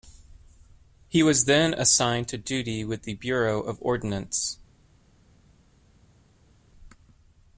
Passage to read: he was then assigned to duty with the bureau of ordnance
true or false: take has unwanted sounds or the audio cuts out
false